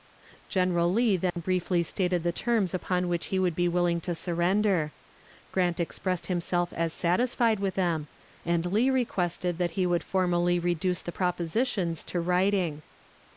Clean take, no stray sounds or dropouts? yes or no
no